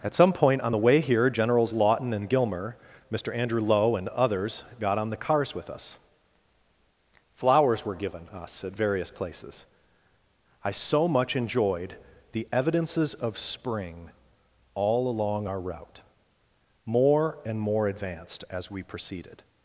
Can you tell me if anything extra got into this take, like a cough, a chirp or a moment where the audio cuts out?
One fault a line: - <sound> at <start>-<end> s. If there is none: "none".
none